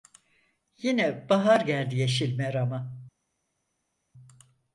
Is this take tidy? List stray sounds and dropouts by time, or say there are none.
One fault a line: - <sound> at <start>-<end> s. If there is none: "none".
none